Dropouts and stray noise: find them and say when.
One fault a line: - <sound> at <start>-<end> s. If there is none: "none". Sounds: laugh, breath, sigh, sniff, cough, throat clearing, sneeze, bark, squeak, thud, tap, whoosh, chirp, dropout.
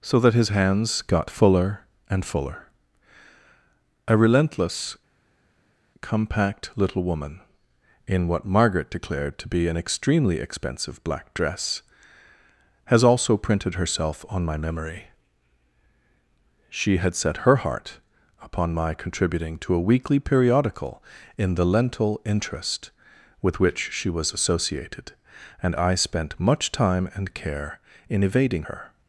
none